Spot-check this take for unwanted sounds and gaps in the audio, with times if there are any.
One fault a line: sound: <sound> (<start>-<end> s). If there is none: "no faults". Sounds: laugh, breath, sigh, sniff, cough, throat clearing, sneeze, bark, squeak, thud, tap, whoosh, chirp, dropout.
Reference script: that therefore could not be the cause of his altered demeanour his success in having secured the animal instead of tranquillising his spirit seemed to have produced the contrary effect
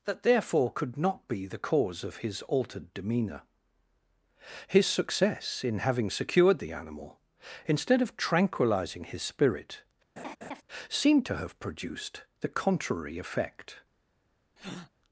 sound: laugh (10.2-10.6 s)
sound: breath (14.6-14.9 s)